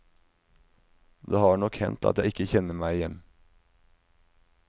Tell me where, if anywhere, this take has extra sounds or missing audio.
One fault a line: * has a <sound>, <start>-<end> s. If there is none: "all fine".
all fine